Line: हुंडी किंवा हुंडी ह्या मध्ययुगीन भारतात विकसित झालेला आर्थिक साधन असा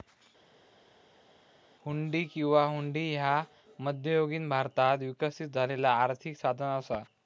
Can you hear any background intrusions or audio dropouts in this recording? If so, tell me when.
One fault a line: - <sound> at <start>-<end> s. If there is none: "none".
none